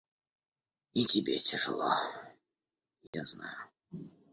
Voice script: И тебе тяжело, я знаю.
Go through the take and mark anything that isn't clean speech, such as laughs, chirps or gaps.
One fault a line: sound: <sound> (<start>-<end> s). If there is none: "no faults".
sound: dropout (3.1-3.1 s)